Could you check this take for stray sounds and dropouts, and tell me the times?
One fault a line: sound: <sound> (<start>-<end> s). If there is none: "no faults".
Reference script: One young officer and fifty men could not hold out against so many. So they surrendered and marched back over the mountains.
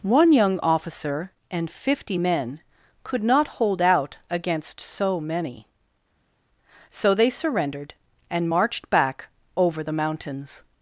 no faults